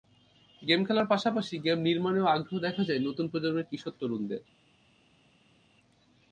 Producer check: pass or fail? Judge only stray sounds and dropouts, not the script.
pass